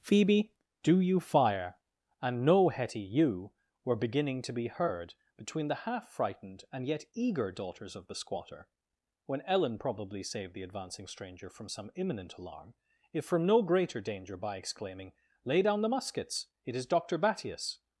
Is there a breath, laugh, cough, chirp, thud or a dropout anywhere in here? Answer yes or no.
no